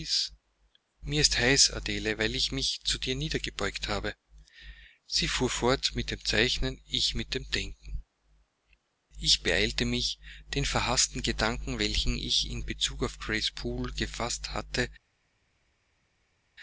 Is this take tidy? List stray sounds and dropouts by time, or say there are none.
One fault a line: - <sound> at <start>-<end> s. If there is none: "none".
none